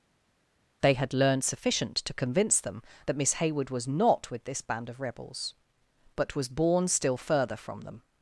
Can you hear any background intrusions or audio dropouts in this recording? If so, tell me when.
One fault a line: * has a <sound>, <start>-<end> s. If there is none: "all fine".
all fine